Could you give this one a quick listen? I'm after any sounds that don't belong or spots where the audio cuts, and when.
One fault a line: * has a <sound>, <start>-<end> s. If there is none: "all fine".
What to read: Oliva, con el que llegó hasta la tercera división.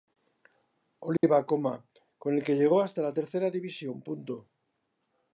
* has a dropout, 1.2-1.2 s